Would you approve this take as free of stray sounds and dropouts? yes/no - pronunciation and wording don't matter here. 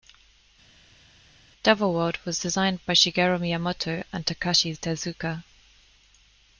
yes